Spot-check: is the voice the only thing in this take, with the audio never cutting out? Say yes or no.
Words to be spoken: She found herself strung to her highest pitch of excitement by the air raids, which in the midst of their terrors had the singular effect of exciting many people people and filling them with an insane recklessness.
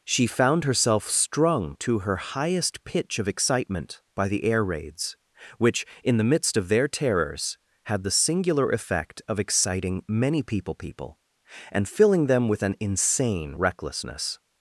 yes